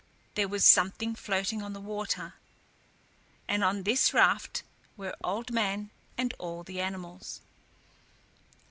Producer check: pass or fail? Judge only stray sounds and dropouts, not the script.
pass